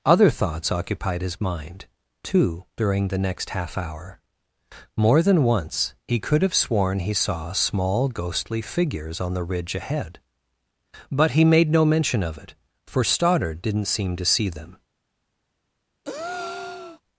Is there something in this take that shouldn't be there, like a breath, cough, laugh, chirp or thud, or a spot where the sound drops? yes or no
yes